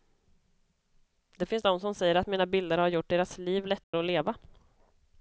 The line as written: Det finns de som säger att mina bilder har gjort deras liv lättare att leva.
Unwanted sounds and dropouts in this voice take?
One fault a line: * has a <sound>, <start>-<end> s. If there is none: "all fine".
* has a dropout, 3.8-3.9 s